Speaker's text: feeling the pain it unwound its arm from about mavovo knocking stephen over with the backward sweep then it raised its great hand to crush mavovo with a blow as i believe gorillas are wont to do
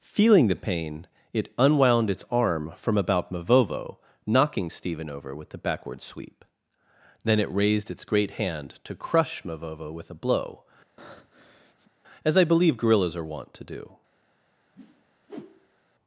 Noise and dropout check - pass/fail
fail